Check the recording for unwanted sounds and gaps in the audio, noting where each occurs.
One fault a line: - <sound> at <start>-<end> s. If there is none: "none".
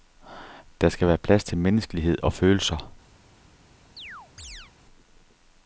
- chirp at 4.0-4.7 s